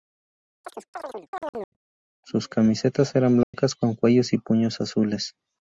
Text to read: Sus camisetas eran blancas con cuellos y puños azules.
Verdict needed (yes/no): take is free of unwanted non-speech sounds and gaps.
no